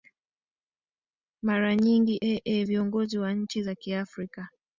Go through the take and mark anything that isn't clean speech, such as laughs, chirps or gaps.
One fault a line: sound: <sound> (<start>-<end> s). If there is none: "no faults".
no faults